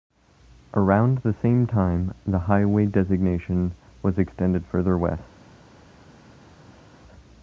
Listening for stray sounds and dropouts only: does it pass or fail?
pass